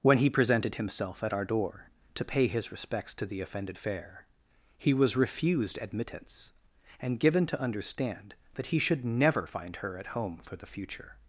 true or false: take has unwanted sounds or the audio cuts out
false